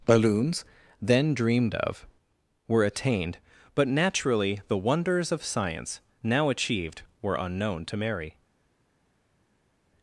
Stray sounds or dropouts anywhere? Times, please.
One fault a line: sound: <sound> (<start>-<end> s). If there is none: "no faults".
no faults